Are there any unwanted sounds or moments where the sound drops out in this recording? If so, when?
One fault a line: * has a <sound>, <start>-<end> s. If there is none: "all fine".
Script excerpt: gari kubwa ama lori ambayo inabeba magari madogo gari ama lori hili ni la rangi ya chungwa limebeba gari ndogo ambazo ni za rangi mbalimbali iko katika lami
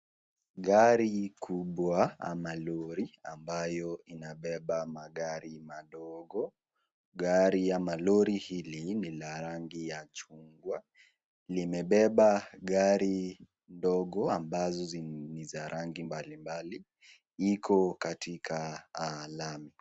all fine